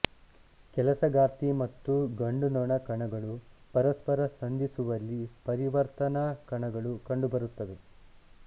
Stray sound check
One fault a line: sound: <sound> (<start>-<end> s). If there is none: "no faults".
no faults